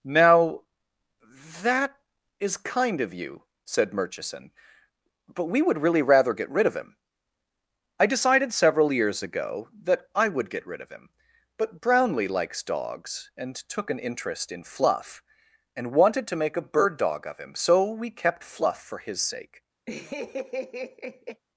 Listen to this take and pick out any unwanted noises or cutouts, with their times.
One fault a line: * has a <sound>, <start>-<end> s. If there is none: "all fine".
* has a laugh, 19.9-21.4 s